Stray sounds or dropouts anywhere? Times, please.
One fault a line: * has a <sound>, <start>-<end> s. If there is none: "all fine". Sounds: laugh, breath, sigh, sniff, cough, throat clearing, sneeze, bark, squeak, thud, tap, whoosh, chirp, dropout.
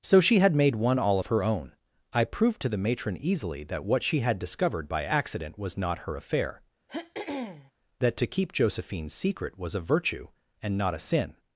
* has a throat clearing, 6.9-7.7 s